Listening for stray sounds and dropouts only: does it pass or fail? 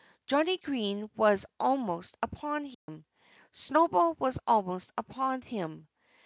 fail